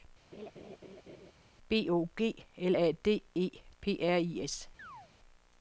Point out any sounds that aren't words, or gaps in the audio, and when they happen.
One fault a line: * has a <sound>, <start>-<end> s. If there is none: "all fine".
* has a laugh, 0.3-1.3 s
* has a chirp, 4.8-5.1 s